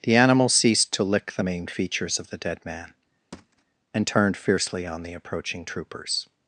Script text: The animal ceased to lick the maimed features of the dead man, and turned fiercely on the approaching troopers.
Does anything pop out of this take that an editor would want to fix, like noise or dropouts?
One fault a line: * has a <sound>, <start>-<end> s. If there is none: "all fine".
* has a thud, 3.3-3.6 s